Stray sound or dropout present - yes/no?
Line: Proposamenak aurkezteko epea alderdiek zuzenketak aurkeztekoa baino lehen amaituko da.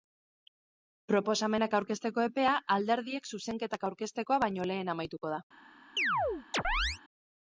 yes